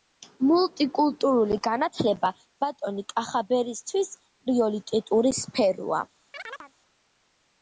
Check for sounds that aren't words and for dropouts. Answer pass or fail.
fail